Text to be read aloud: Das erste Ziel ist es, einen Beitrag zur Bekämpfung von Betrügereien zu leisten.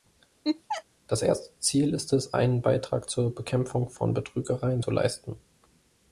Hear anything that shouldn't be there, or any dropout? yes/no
yes